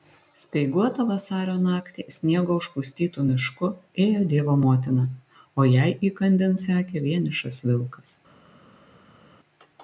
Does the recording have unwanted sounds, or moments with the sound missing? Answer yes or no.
no